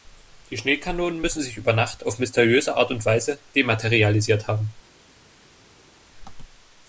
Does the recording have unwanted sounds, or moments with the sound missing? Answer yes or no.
no